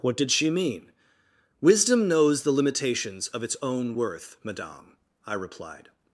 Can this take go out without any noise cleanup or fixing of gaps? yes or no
yes